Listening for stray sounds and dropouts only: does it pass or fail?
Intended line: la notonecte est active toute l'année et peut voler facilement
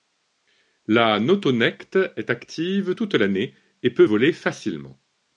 pass